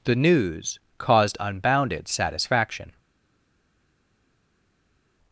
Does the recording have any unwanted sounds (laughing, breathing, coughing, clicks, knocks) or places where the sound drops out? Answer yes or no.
no